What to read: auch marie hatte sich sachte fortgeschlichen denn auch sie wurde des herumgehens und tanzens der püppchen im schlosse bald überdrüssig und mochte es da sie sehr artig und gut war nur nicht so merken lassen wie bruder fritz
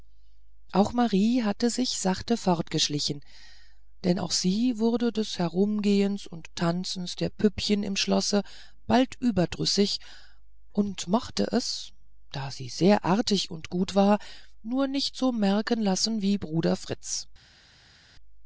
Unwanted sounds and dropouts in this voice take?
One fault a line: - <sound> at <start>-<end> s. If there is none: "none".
none